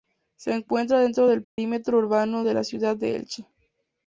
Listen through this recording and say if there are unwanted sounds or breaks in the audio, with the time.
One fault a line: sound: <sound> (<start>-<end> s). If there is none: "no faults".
sound: dropout (1.4-1.6 s)